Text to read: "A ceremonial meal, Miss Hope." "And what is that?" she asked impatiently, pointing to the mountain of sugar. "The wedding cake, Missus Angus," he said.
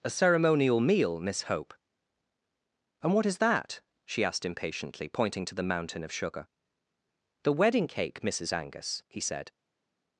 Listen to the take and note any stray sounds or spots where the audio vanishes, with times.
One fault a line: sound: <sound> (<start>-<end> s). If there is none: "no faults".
no faults